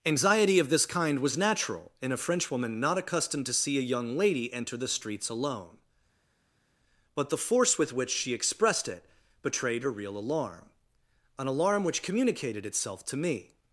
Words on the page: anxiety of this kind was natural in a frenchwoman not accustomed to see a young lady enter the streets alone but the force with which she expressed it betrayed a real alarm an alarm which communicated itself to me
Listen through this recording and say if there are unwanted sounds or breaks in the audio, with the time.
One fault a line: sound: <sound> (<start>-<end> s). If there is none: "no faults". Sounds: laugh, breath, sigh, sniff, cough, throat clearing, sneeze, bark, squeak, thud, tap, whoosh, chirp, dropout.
no faults